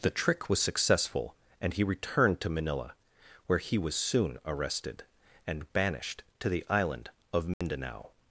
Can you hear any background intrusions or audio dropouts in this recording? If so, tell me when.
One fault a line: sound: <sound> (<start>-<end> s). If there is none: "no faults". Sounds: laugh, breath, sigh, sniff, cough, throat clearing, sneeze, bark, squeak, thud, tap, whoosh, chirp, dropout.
sound: dropout (7.5-7.6 s)